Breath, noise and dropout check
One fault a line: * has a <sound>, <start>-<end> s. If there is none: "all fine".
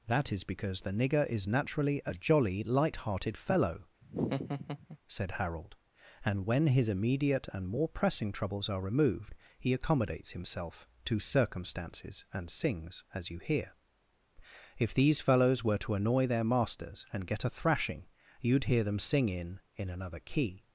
* has a laugh, 4.0-5.0 s